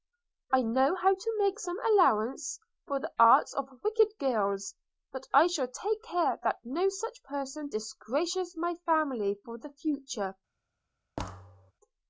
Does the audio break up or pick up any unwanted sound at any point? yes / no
yes